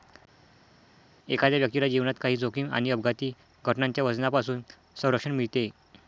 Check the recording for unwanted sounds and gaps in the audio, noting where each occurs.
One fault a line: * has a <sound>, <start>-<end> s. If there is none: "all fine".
all fine